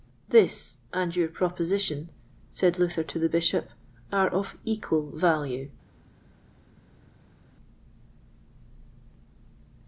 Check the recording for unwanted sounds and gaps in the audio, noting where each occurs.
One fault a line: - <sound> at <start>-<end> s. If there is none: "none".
none